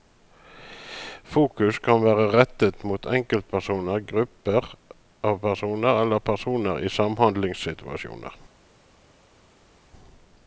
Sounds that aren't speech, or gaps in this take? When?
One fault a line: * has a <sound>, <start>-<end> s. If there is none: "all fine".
all fine